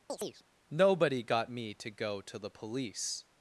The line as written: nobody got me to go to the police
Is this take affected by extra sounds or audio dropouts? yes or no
yes